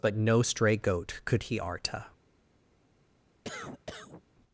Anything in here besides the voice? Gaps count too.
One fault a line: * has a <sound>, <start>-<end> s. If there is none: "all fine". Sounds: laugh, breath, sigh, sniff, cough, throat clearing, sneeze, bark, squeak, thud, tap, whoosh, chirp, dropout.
* has a cough, 3.4-4.2 s